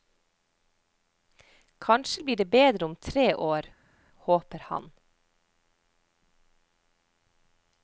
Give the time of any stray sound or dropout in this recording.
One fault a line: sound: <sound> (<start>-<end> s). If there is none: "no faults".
no faults